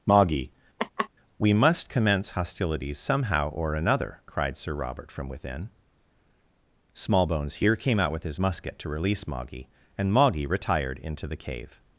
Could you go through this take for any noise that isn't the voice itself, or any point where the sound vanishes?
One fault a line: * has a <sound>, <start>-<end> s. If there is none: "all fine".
* has a laugh, 0.8-1.1 s